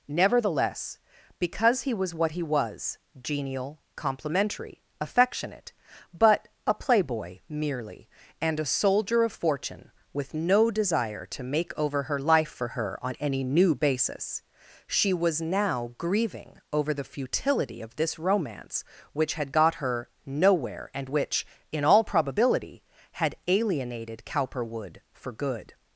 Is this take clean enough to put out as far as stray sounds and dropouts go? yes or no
yes